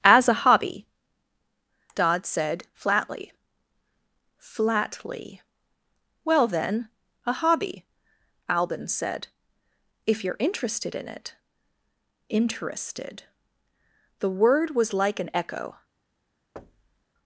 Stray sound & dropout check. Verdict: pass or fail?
fail